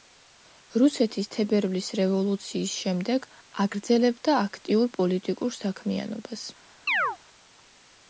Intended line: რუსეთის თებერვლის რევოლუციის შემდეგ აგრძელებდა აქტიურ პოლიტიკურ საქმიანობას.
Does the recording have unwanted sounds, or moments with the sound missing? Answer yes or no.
yes